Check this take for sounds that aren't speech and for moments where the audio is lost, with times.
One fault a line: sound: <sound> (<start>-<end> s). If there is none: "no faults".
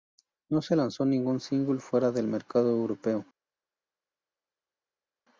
no faults